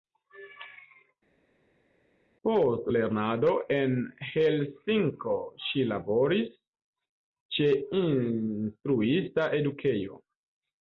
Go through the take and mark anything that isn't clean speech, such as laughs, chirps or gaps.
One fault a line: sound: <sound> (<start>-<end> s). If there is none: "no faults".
no faults